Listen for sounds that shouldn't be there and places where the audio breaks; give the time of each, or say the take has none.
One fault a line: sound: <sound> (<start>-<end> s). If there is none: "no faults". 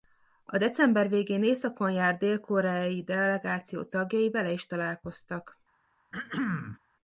sound: throat clearing (6.1-6.8 s)